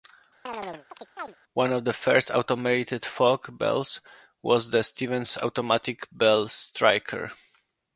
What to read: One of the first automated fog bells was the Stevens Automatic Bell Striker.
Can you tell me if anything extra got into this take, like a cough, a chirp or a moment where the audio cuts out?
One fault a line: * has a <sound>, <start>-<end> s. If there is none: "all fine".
* has a chirp, 0.5-1.4 s